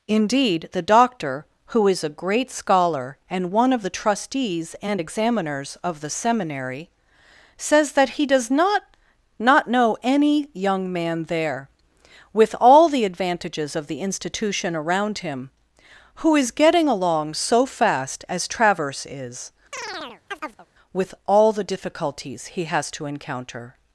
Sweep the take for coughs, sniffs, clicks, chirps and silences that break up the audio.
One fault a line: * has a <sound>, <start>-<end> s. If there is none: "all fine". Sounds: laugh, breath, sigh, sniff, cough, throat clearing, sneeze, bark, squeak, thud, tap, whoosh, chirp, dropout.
* has a chirp, 19.7-20.7 s